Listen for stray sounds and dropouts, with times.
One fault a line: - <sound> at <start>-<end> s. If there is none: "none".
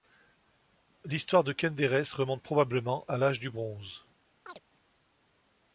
- chirp at 4.5-4.6 s